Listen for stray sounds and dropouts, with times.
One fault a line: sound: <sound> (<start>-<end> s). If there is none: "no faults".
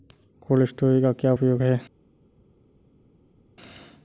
no faults